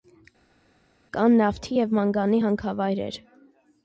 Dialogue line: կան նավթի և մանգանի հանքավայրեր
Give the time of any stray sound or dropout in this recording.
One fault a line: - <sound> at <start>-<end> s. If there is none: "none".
none